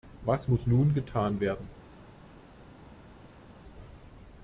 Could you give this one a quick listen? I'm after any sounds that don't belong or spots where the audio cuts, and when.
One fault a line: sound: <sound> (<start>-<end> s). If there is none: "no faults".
no faults